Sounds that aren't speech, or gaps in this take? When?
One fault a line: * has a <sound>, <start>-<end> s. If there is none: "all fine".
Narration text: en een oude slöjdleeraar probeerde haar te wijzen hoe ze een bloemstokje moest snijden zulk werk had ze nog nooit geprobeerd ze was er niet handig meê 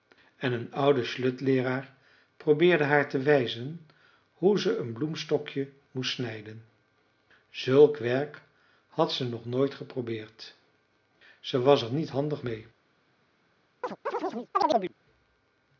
* has a chirp, 13.8-14.9 s